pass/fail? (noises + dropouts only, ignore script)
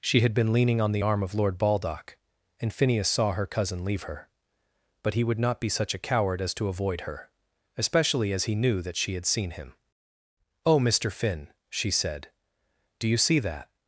pass